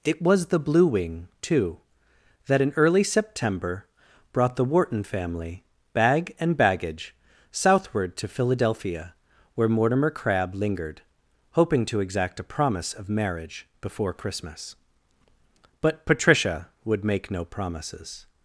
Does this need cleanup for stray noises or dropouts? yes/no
no